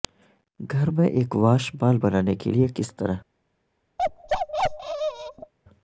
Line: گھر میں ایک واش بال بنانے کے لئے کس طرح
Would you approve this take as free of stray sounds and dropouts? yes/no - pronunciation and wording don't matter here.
no